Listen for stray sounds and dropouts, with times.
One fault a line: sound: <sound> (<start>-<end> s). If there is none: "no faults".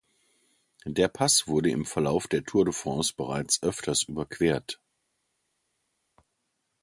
no faults